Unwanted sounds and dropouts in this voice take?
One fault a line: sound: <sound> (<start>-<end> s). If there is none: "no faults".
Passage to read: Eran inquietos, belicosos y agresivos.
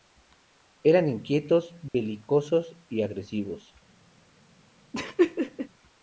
sound: dropout (1.9-1.9 s)
sound: laugh (4.9-5.7 s)